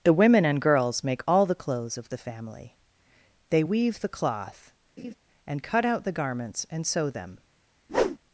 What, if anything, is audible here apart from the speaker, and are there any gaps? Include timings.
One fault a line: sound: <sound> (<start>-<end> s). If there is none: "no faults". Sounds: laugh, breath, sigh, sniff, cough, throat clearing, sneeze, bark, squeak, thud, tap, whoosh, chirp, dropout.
sound: laugh (5.0-5.1 s)
sound: whoosh (7.9-8.2 s)